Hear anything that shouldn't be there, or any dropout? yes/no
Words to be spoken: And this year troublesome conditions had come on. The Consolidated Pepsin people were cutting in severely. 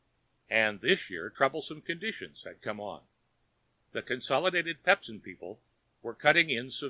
no